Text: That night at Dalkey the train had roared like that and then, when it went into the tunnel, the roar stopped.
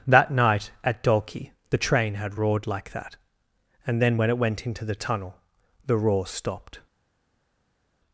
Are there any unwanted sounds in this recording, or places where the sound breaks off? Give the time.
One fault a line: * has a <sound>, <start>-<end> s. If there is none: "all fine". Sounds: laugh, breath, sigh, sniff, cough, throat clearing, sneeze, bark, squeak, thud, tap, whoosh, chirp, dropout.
all fine